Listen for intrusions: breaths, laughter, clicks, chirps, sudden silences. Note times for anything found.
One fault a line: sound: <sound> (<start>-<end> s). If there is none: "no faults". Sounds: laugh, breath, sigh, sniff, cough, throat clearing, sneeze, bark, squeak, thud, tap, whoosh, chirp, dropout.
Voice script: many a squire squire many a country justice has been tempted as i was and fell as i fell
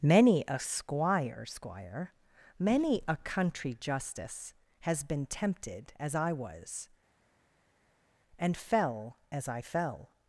no faults